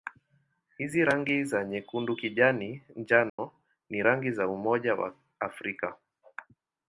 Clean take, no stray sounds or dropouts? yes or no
no